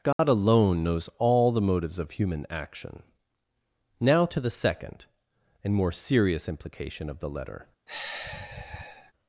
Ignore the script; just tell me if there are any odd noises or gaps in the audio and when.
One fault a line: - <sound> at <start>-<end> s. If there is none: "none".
- dropout at 0.1-0.2 s
- sigh at 7.9-9.1 s